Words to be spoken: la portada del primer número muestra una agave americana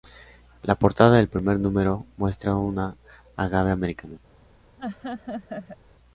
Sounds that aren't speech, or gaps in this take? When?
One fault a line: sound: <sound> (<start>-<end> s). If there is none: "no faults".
sound: laugh (4.8-5.8 s)